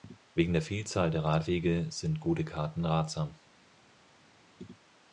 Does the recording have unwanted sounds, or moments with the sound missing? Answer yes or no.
no